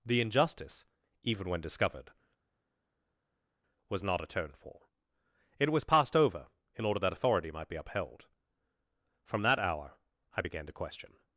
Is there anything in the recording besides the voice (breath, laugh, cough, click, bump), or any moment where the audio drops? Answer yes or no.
no